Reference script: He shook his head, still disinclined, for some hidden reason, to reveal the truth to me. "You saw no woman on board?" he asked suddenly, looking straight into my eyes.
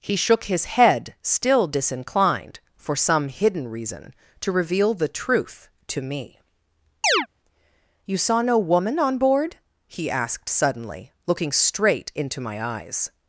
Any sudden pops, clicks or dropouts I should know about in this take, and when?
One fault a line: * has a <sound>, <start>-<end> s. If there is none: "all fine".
* has a chirp, 7.0-7.3 s